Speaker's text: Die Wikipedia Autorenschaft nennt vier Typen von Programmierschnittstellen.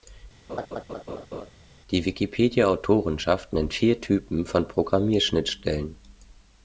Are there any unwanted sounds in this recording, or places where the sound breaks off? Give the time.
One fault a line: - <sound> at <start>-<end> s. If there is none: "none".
- laugh at 0.5-1.5 s